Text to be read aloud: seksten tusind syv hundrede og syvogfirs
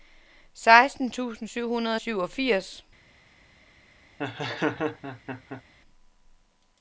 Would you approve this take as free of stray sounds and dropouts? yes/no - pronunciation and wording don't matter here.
no